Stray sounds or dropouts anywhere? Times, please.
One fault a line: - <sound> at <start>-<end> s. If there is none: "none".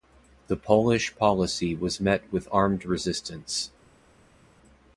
none